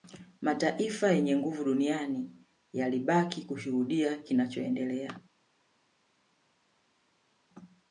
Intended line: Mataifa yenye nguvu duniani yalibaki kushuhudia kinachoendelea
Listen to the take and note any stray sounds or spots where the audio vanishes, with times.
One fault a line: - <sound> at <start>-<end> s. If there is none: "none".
none